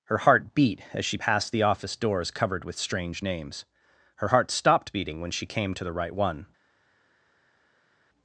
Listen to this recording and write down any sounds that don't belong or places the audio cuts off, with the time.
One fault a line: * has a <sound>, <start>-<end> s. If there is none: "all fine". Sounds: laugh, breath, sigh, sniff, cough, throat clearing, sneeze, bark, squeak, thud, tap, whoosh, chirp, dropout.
all fine